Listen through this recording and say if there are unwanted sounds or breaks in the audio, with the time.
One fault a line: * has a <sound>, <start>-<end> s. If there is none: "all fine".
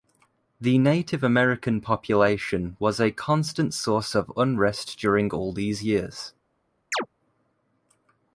* has a chirp, 6.9-7.1 s